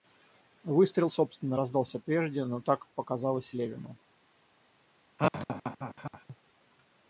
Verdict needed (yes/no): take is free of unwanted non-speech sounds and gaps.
no